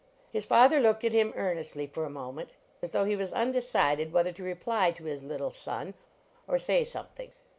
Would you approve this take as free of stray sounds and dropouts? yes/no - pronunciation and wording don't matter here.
yes